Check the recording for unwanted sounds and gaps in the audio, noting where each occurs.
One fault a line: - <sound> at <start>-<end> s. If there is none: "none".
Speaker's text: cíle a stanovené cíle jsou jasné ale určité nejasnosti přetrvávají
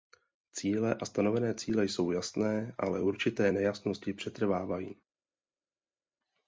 none